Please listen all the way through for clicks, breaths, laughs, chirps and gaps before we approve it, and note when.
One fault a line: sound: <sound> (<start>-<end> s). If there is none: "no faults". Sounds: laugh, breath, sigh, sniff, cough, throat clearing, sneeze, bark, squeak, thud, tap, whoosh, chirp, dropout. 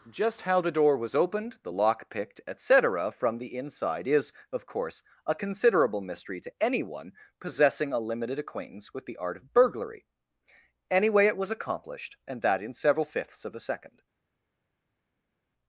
no faults